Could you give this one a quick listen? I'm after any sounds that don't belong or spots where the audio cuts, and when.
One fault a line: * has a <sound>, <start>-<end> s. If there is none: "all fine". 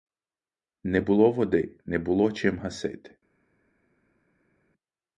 all fine